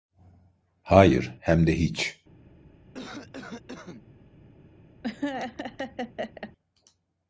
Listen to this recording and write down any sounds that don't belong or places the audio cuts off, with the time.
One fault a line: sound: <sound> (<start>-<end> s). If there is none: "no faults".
sound: cough (2.9-4.0 s)
sound: laugh (5.0-6.5 s)